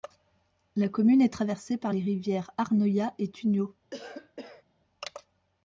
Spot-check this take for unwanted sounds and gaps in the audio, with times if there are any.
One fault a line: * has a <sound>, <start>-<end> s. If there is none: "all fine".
* has a cough, 3.9-4.6 s